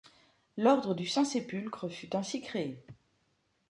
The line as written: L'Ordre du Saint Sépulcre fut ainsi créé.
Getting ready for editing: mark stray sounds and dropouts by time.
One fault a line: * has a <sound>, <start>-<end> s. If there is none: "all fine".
all fine